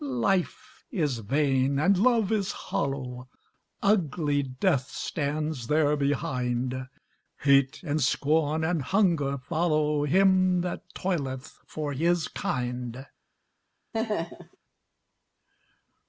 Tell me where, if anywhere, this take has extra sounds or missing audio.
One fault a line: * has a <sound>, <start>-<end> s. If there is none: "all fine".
* has a laugh, 13.9-14.6 s